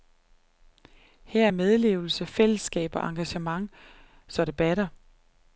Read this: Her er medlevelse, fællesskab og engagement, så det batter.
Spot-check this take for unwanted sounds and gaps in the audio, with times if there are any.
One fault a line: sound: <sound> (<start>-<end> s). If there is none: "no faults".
no faults